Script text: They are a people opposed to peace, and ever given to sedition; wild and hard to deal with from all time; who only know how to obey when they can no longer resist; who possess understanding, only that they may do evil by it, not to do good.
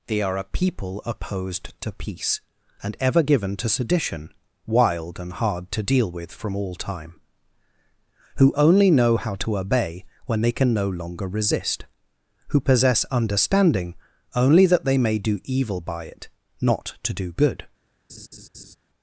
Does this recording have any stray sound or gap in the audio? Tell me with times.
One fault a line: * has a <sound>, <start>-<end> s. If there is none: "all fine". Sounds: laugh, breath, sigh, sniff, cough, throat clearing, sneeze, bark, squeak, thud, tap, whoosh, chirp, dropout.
* has a laugh, 18.1-18.8 s